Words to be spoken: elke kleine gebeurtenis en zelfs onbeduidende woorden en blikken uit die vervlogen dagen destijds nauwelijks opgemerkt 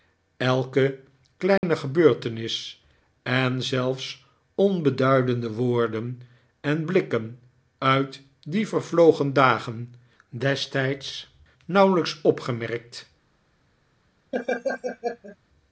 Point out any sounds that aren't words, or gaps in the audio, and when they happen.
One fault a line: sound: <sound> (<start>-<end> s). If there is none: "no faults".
sound: dropout (1.6-1.6 s)
sound: laugh (14.3-15.4 s)